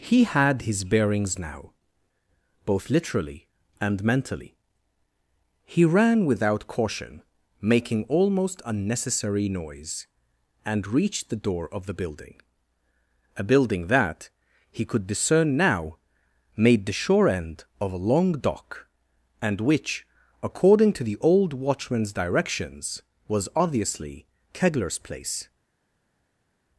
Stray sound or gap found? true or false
false